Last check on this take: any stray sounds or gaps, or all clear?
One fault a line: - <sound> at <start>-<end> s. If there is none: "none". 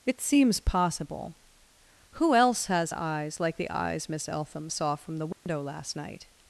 - dropout at 5.3-5.5 s